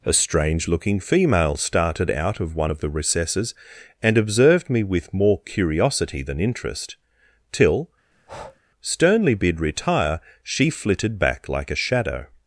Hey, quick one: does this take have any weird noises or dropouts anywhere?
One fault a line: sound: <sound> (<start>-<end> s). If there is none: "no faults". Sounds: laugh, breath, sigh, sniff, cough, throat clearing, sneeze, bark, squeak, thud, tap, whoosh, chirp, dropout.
sound: breath (8.1-8.6 s)